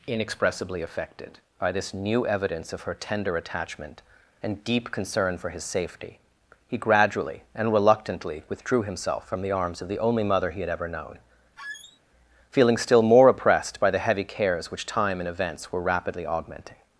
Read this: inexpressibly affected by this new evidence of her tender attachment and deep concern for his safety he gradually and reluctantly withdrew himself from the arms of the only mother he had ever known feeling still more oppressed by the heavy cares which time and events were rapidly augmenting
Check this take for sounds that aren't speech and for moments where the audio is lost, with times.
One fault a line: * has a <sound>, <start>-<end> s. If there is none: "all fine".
* has a squeak, 11.6-12.0 s